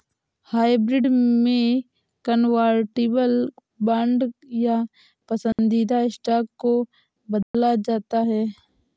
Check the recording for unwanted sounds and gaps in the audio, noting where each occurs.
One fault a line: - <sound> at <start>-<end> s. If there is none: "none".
- dropout at 5.5-5.6 s
- dropout at 7.4-7.5 s